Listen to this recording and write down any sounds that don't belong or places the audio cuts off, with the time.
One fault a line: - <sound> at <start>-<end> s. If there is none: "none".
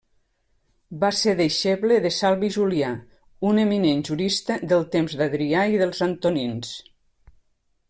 none